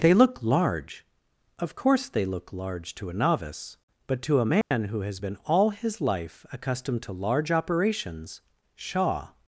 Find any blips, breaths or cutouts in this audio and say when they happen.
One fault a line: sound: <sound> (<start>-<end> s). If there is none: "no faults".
sound: dropout (4.6-4.7 s)